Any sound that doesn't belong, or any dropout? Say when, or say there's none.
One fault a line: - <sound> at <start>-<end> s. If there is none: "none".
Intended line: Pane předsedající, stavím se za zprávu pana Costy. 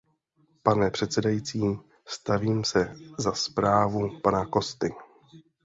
none